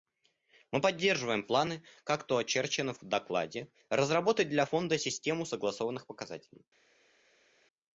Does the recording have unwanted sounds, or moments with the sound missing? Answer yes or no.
no